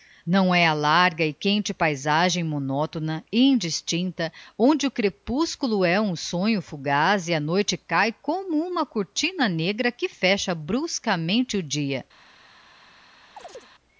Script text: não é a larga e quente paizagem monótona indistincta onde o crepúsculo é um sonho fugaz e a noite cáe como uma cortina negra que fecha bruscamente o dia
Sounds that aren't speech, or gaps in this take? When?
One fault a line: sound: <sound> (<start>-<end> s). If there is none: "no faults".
sound: chirp (13.4-13.7 s)